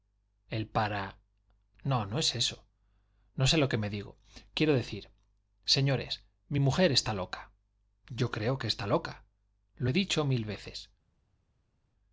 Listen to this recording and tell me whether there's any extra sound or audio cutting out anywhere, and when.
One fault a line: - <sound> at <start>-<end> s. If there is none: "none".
none